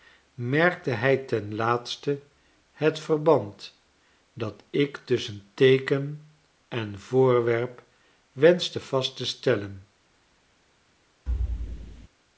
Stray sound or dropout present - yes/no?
yes